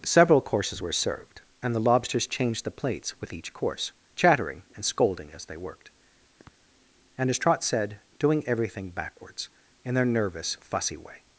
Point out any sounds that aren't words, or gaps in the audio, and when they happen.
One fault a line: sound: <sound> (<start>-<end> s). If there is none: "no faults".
sound: sniff (6.4-6.7 s)